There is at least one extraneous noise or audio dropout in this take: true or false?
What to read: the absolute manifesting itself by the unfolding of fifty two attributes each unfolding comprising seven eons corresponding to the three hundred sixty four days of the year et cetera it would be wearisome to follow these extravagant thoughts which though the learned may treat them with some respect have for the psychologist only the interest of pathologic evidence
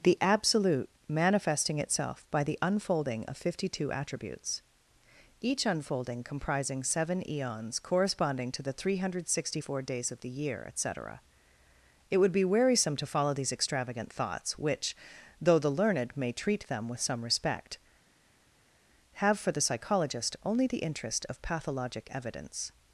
false